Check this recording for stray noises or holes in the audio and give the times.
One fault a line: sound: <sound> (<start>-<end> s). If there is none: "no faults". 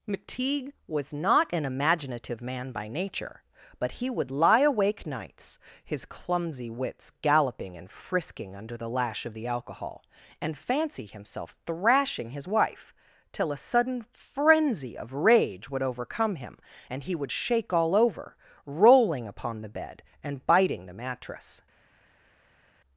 no faults